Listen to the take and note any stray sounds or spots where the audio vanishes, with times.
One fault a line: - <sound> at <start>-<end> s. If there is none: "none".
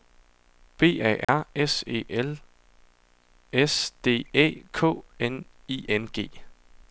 - dropout at 1.2-1.3 s